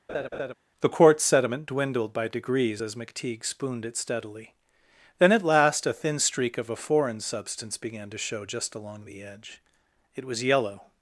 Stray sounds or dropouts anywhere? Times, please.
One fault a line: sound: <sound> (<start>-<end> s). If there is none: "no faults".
sound: laugh (0.1-0.5 s)